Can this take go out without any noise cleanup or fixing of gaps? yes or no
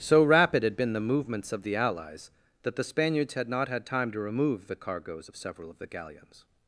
yes